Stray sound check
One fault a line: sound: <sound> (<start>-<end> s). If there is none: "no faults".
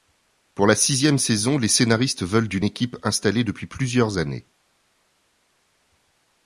no faults